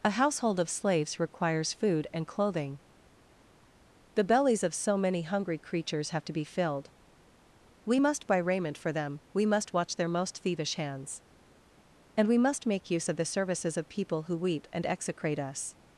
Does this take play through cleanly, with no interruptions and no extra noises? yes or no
yes